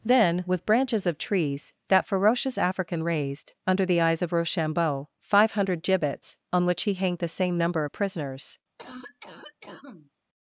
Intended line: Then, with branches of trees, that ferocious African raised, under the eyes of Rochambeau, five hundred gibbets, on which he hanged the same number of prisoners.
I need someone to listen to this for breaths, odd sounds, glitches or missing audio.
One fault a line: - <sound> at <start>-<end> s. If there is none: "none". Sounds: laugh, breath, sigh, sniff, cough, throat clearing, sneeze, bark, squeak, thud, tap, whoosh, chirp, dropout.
- cough at 8.8-10.1 s